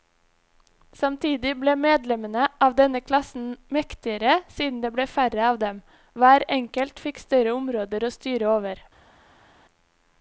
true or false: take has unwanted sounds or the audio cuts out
false